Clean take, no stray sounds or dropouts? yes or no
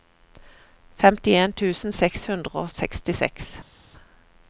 yes